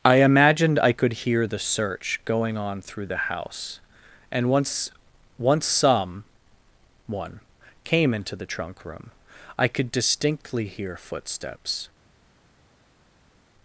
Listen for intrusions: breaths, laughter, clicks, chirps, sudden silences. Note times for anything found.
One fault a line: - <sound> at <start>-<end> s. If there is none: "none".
none